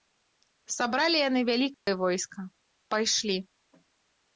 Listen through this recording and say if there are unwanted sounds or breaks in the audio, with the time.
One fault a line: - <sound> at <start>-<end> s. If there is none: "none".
- dropout at 1.7-1.9 s